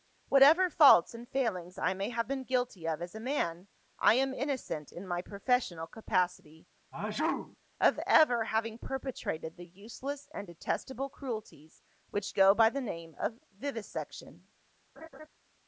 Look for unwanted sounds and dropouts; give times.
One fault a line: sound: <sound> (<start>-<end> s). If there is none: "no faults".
sound: sneeze (6.9-7.6 s)
sound: laugh (15.0-15.3 s)